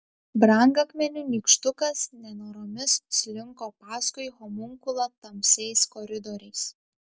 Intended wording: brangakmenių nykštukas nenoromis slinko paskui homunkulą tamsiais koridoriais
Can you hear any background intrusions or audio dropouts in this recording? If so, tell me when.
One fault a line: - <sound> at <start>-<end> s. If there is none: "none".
none